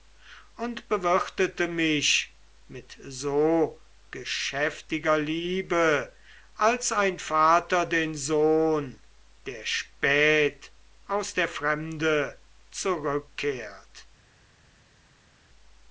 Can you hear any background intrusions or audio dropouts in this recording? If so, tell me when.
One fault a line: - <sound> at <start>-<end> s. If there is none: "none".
none